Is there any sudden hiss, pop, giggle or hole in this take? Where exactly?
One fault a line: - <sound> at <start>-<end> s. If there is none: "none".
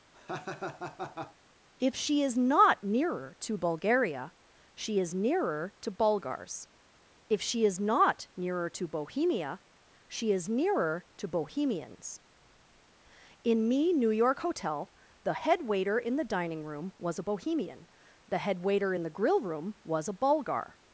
- laugh at 0.1-1.4 s